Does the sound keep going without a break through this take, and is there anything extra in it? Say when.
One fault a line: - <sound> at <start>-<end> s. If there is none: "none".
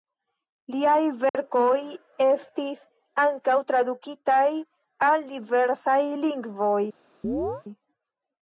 - dropout at 1.3-1.3 s
- chirp at 7.2-7.6 s